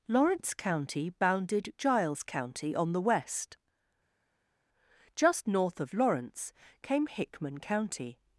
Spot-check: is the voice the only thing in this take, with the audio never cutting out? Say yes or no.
yes